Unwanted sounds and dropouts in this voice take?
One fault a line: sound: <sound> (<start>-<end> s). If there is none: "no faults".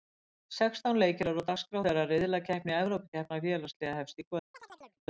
sound: chirp (4.5-5.0 s)